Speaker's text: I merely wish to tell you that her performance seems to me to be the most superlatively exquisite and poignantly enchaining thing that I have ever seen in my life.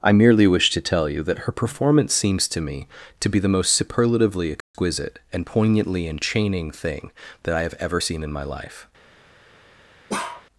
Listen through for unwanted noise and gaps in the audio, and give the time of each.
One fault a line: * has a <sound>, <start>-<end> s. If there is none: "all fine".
* has a dropout, 4.6-4.7 s
* has a bark, 10.1-10.5 s